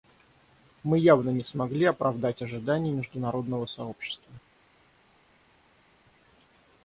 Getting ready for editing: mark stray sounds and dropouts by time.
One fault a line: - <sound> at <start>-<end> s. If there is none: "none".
none